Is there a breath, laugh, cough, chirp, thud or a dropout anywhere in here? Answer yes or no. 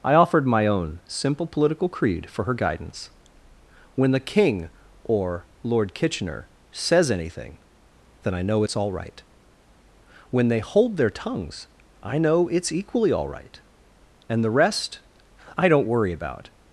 no